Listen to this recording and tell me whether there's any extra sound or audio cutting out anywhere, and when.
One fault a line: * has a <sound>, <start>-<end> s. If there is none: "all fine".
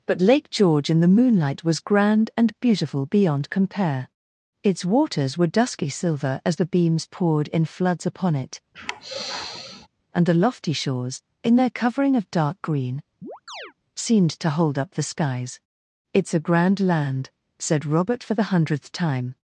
* has a sigh, 8.7-9.9 s
* has a chirp, 13.2-13.7 s